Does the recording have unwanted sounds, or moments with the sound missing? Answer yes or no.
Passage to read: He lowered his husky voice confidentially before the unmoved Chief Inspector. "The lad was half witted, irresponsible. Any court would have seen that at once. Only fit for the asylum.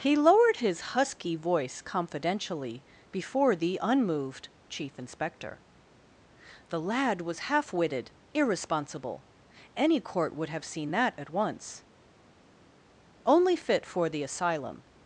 no